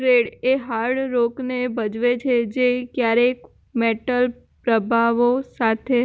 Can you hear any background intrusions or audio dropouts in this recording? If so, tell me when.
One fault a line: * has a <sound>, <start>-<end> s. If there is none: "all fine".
all fine